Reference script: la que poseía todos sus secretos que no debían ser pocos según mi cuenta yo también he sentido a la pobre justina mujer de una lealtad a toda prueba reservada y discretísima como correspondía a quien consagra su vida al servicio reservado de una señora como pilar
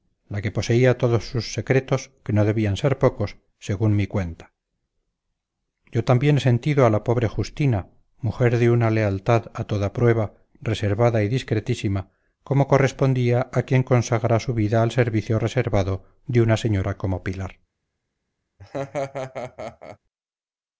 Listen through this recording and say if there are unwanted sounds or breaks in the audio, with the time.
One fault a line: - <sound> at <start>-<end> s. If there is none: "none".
- laugh at 18.6-20.0 s